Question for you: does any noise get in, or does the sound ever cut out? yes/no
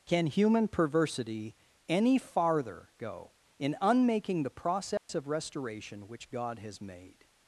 yes